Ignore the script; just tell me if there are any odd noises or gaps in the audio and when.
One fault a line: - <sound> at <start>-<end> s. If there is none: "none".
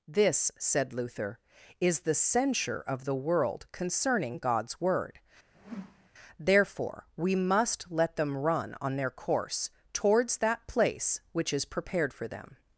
- whoosh at 5.5-6.1 s